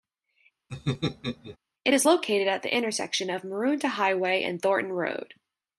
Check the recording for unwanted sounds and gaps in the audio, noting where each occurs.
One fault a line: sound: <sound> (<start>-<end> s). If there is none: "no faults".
sound: laugh (0.7-1.6 s)